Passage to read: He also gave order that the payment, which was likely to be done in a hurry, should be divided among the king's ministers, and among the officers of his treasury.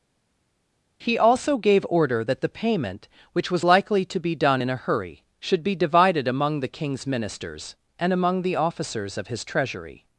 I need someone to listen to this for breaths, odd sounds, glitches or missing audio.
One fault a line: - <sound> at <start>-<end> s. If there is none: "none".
none